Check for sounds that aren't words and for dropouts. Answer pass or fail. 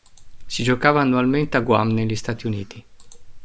pass